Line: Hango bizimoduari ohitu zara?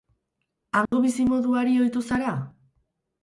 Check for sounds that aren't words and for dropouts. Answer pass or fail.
fail